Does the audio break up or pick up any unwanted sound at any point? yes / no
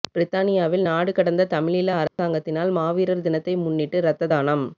yes